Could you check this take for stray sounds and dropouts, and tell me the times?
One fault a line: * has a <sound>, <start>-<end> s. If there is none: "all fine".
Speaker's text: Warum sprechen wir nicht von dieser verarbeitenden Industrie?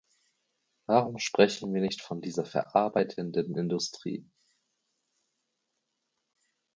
all fine